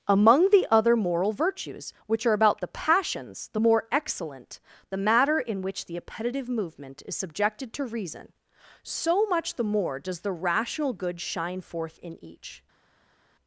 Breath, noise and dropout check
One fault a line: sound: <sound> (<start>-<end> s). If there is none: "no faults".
no faults